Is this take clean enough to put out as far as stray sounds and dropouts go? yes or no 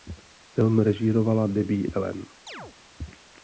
no